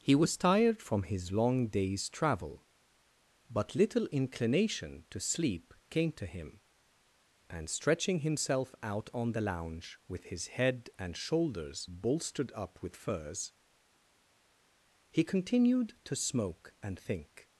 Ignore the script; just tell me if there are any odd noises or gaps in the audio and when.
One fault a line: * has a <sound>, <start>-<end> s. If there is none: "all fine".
all fine